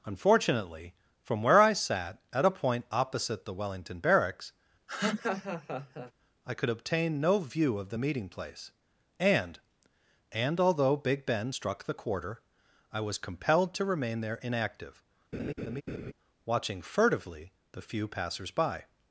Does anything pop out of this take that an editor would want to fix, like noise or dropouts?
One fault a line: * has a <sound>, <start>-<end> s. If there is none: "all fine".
* has a laugh, 4.9-6.1 s
* has a laugh, 15.3-16.1 s